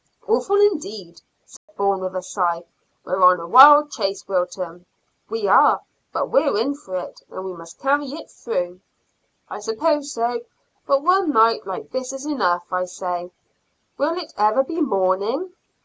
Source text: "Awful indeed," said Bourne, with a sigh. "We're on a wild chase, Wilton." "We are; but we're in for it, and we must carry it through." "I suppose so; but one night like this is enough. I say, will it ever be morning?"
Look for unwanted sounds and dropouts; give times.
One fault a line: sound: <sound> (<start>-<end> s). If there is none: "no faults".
sound: dropout (1.6-1.7 s)